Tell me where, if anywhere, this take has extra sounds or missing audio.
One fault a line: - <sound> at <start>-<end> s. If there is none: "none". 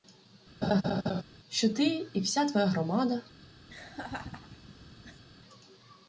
- laugh at 0.6-1.2 s
- laugh at 3.7-5.2 s